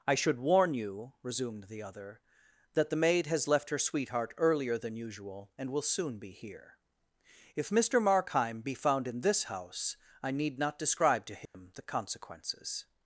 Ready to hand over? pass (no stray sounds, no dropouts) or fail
fail